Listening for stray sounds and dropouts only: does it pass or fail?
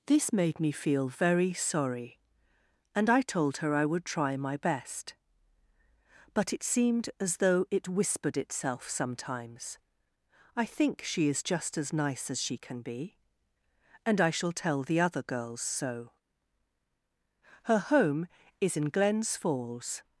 pass